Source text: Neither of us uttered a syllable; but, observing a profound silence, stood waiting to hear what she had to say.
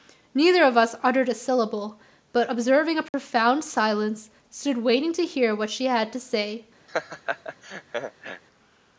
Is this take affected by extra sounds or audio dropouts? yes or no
yes